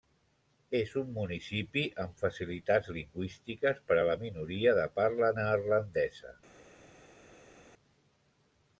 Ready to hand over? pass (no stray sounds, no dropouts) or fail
pass